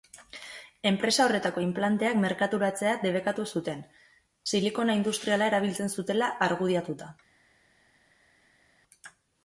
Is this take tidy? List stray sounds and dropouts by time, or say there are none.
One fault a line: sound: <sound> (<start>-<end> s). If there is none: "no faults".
no faults